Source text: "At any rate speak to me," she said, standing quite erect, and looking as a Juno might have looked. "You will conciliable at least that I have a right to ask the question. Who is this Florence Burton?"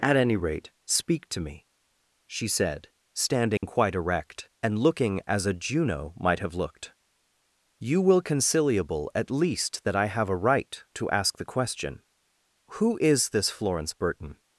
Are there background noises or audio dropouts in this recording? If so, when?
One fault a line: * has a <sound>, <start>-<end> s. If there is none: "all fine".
* has a dropout, 3.6-3.6 s